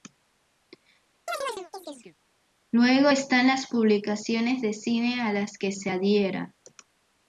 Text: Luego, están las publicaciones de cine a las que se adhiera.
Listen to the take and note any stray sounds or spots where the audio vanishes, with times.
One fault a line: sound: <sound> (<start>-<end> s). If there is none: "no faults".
sound: chirp (1.3-2.2 s)